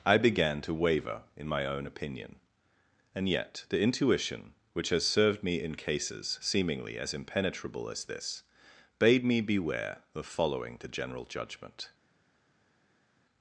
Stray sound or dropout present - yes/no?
no